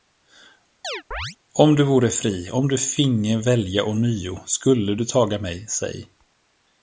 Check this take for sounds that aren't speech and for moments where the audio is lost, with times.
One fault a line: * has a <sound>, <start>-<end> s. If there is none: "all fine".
* has a chirp, 0.8-1.4 s